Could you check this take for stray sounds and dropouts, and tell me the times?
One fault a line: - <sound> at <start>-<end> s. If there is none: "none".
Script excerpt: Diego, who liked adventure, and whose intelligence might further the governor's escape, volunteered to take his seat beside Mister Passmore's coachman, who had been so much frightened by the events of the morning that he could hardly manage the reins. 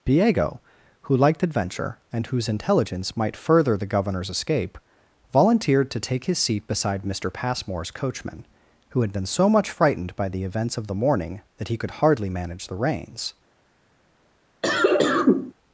- cough at 14.6-15.5 s